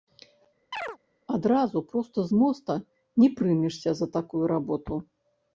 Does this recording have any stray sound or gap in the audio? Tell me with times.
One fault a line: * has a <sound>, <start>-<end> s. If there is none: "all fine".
* has a chirp, 0.7-1.0 s